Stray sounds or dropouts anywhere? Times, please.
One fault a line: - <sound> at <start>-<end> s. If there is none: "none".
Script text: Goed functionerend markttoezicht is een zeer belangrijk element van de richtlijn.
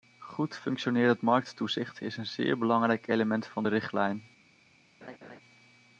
- laugh at 5.0-5.4 s